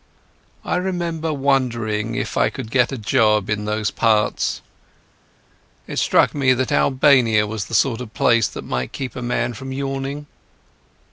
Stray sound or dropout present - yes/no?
no